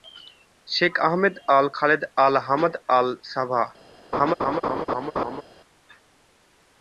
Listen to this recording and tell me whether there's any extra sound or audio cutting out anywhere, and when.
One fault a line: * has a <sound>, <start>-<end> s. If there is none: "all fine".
* has a laugh, 4.1-5.4 s